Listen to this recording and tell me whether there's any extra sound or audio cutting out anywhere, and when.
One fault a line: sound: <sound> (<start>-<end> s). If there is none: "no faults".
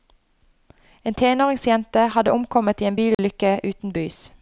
sound: dropout (3.1-3.2 s)